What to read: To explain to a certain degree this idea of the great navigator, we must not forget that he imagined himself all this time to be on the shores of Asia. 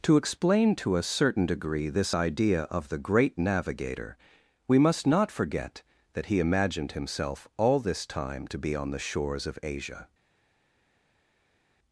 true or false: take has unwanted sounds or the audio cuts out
false